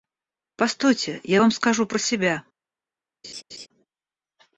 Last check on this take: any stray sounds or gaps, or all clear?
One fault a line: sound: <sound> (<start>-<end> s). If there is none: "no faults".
sound: laugh (3.2-3.7 s)